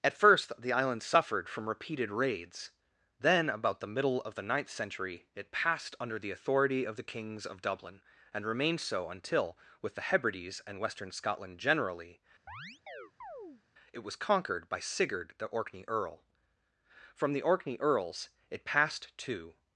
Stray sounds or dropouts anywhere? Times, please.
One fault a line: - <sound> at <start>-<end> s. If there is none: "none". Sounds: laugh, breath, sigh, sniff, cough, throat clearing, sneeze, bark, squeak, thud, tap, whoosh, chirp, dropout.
- chirp at 12.5-13.6 s